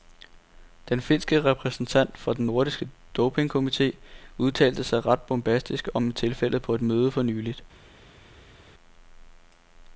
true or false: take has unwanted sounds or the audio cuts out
false